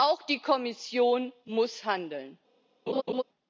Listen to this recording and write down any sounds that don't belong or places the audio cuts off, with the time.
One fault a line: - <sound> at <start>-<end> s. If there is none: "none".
- laugh at 2.9-3.2 s